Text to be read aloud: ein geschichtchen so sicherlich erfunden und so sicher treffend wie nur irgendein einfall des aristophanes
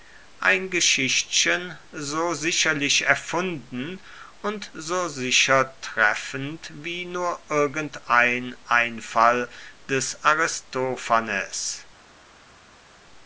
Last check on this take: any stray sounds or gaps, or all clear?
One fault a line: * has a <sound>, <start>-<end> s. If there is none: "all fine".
all fine